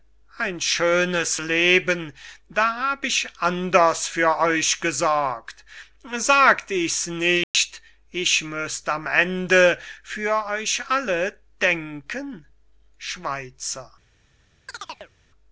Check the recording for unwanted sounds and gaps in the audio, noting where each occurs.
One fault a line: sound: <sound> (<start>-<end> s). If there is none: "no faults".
sound: dropout (7.4-7.5 s)
sound: chirp (14.7-15.1 s)